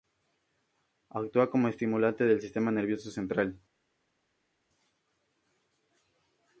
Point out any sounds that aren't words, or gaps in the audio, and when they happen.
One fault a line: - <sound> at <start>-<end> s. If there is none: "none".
none